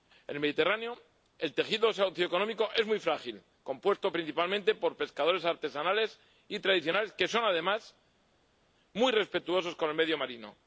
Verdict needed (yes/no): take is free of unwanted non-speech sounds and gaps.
yes